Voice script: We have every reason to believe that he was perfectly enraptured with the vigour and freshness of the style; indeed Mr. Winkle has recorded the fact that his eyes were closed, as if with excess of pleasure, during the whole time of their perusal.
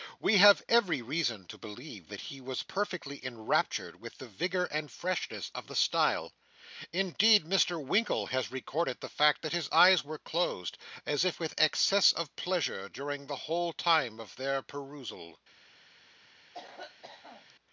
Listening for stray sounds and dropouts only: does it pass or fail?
fail